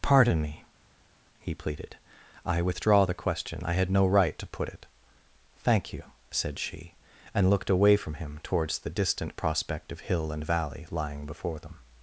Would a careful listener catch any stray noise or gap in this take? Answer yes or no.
no